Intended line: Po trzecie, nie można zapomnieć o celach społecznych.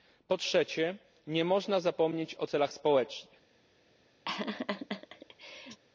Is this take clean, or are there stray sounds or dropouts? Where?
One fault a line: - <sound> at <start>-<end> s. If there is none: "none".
- laugh at 4.2-5.8 s